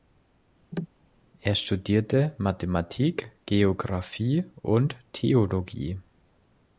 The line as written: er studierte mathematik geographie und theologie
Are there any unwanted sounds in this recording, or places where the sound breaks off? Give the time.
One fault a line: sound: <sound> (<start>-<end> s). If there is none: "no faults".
sound: cough (0.7-0.9 s)